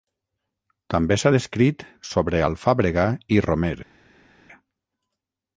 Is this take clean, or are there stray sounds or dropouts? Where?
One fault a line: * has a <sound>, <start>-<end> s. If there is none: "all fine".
all fine